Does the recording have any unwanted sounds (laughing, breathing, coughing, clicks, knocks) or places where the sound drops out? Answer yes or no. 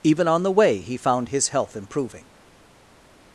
no